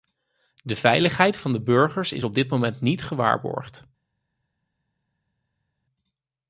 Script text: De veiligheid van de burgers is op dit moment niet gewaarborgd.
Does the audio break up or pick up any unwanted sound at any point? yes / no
no